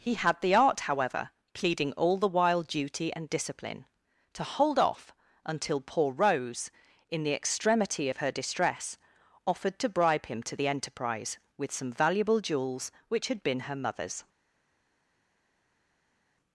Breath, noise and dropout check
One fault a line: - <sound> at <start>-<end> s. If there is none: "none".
none